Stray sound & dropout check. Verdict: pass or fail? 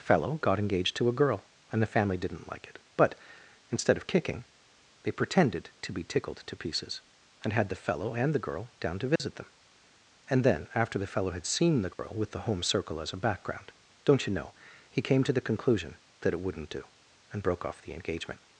fail